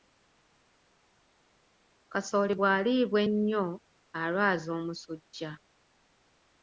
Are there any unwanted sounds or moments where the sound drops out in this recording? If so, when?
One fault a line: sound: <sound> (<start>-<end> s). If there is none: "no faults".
no faults